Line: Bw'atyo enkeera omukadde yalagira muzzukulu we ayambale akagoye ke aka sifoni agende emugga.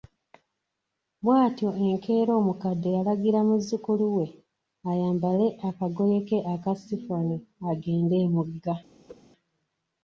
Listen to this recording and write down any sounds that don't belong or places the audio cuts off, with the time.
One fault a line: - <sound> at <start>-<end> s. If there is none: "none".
- whoosh at 9.1-9.2 s